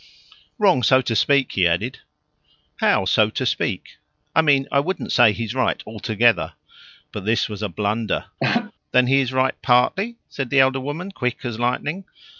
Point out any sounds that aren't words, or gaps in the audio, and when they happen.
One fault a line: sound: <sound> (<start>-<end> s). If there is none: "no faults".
sound: laugh (8.4-8.7 s)